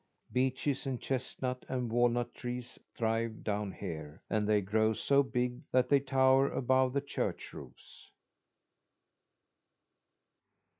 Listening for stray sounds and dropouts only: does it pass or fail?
pass